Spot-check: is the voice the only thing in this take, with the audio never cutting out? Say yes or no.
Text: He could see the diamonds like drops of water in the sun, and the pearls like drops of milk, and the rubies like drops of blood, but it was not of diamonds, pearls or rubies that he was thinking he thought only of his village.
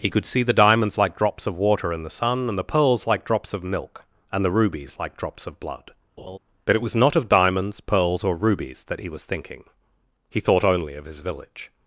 no